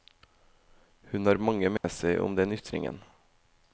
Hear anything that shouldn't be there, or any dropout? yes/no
yes